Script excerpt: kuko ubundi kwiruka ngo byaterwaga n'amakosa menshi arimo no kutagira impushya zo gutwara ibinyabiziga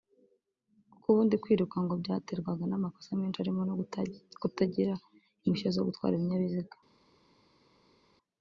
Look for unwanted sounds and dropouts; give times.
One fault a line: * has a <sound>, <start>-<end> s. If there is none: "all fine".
all fine